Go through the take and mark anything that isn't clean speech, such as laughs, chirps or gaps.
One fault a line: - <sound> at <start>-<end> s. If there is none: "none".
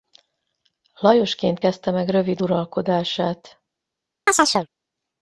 - chirp at 4.3-4.7 s